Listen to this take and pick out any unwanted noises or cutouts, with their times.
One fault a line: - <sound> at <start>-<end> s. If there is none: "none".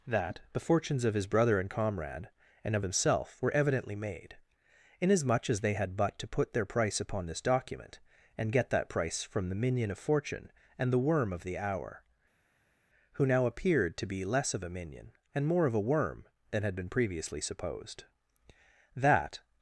none